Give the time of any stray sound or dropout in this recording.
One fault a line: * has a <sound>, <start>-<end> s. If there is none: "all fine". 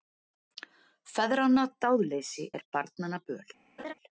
* has a laugh, 3.8-3.9 s